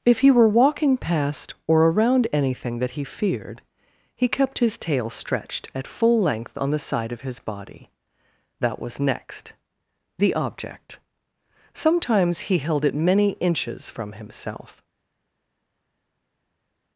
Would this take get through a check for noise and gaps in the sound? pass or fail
pass